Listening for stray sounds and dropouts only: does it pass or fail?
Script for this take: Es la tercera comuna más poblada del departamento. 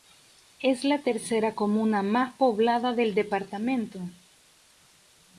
pass